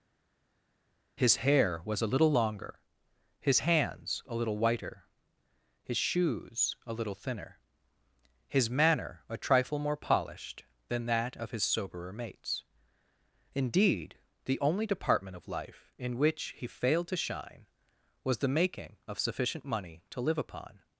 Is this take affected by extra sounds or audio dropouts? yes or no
no